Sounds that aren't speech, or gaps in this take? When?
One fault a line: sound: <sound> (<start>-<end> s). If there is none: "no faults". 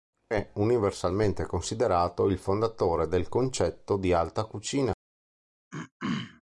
sound: throat clearing (5.7-6.4 s)